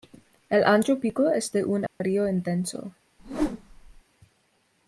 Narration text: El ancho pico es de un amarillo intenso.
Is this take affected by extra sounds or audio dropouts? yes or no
yes